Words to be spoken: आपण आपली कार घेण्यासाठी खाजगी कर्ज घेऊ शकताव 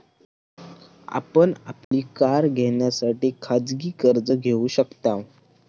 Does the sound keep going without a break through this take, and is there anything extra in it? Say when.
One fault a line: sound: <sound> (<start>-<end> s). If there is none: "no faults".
sound: dropout (1.8-1.9 s)